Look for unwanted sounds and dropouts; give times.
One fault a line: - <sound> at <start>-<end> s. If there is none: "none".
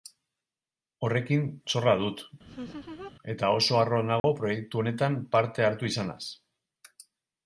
- laugh at 2.4-3.1 s
- dropout at 4.2-4.2 s